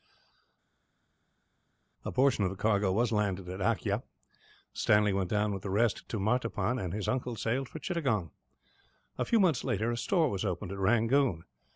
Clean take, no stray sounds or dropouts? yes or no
yes